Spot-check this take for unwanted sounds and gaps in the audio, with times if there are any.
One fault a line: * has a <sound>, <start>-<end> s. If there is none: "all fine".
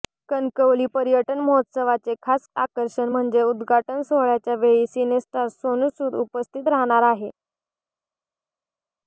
all fine